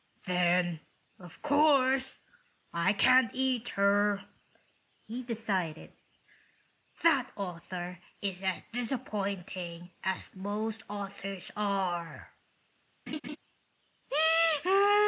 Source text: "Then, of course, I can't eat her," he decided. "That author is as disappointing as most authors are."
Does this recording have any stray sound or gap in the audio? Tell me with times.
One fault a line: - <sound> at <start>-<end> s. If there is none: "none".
- laugh at 13.1-13.4 s